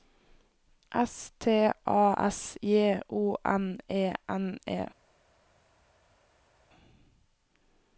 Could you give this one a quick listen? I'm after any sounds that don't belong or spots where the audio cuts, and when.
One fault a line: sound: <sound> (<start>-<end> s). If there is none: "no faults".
no faults